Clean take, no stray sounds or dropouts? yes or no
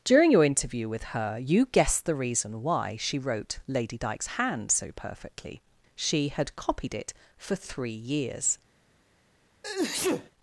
no